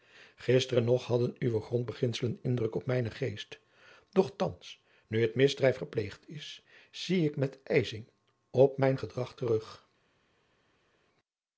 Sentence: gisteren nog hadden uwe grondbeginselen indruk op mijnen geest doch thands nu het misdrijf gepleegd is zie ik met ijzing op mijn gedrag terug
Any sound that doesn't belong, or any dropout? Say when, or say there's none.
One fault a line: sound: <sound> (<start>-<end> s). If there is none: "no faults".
no faults